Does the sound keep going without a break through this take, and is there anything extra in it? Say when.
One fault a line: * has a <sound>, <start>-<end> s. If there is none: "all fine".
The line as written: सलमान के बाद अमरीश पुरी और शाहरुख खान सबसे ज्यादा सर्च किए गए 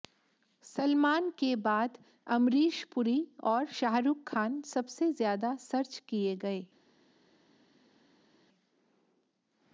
all fine